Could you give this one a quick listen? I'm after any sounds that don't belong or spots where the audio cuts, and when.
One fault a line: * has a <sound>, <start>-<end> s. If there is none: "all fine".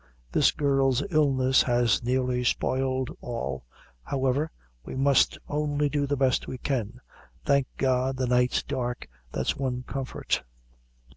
all fine